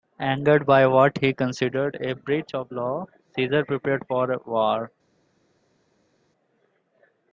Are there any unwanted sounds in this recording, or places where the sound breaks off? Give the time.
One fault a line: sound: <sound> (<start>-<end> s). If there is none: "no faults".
no faults